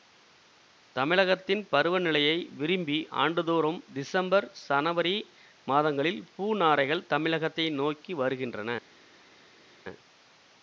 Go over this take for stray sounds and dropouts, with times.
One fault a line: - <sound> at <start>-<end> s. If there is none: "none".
none